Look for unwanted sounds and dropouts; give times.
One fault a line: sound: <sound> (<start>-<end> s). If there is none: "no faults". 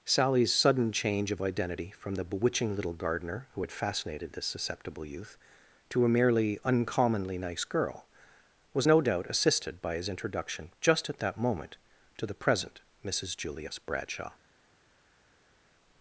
no faults